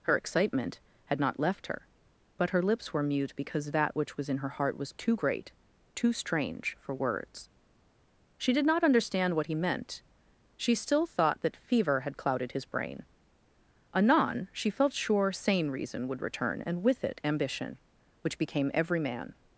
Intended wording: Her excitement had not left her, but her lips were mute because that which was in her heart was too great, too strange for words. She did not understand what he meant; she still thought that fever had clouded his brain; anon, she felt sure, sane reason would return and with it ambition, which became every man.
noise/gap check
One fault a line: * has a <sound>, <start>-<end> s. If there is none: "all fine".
all fine